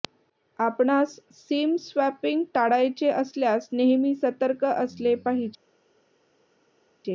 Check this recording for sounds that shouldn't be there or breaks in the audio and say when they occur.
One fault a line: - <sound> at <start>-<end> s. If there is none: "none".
none